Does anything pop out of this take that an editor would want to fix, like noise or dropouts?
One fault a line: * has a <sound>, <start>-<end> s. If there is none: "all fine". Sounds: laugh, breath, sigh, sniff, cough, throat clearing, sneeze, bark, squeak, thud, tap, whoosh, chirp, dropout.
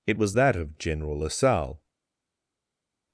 all fine